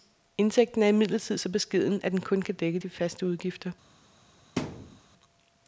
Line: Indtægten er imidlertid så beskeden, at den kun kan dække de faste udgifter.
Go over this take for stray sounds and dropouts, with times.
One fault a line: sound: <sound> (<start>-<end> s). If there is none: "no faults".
sound: thud (4.6-5.0 s)